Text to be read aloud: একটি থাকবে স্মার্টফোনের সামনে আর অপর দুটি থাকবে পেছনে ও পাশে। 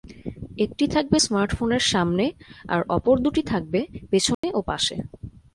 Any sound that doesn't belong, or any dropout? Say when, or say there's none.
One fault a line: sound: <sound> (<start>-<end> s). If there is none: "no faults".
sound: dropout (4.3-4.4 s)